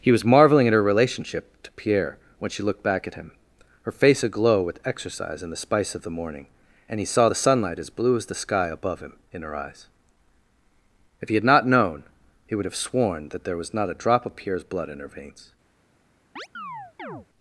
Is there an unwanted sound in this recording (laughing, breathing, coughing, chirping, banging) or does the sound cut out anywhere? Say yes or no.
yes